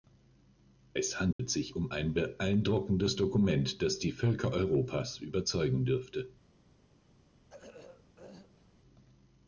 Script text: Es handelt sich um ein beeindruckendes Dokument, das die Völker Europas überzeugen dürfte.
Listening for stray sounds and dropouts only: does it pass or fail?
fail